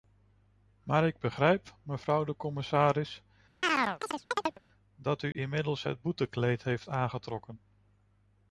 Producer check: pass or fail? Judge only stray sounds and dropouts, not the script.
fail